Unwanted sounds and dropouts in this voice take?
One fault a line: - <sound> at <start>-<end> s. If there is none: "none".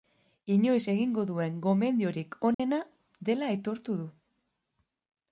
- dropout at 2.5-2.6 s